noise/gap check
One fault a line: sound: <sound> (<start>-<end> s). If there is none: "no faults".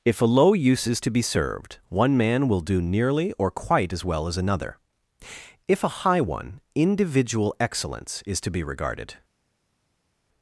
no faults